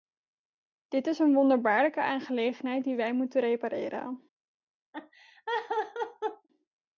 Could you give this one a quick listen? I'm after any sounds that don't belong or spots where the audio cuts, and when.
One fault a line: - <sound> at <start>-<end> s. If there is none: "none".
- laugh at 4.9-6.5 s